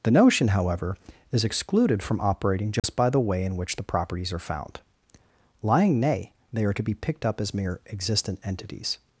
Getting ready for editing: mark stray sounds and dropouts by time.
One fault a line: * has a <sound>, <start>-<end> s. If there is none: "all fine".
* has a dropout, 2.8-2.8 s